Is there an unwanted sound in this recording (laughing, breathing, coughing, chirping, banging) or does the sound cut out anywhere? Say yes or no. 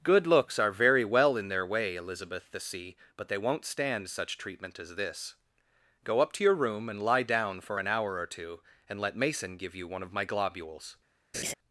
yes